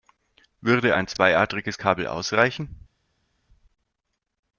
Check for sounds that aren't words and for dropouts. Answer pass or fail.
pass